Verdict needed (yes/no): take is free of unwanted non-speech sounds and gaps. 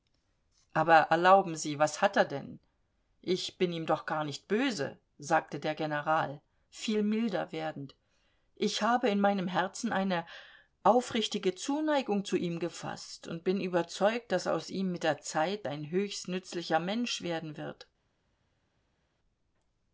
yes